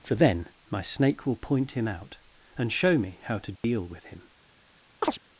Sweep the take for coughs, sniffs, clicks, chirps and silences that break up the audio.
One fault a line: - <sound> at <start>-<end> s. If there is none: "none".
- dropout at 3.6-3.6 s
- chirp at 5.0-5.2 s